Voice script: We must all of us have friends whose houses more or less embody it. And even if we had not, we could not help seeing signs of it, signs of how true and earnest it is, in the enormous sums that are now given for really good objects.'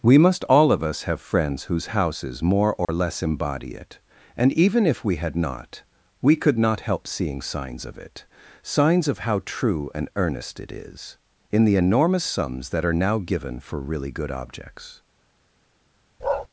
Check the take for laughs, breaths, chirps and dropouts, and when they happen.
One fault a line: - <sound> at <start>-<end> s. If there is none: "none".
- dropout at 2.8-2.9 s
- bark at 16.2-16.5 s